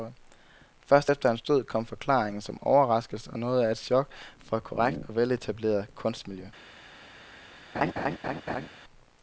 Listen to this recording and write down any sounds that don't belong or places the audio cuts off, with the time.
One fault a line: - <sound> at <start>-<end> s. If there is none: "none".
- laugh at 7.7-8.7 s